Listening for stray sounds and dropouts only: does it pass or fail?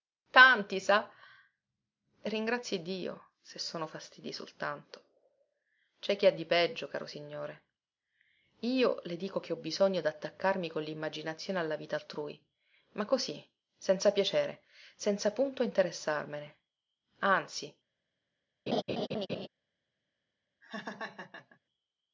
fail